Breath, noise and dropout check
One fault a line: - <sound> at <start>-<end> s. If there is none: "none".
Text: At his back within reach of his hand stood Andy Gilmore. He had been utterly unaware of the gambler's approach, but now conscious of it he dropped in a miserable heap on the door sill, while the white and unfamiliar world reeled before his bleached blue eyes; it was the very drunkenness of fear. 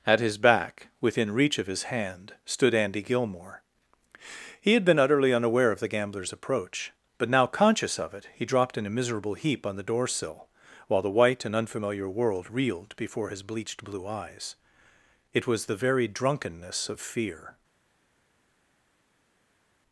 none